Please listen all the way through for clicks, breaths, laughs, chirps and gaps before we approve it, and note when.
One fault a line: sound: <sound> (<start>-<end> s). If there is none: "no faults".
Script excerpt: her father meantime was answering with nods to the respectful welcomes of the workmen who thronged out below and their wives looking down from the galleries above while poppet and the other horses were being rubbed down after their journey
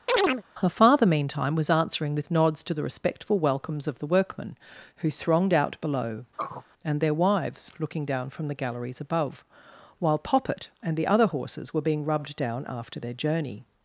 sound: chirp (0.1-0.4 s)
sound: throat clearing (6.4-6.6 s)